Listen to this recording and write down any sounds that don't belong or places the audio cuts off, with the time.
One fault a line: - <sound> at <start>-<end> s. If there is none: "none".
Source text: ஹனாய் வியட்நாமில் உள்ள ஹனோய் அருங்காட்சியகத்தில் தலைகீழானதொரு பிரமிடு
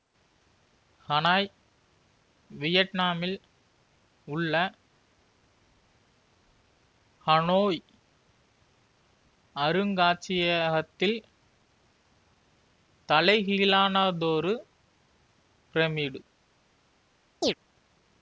- chirp at 17.4-17.5 s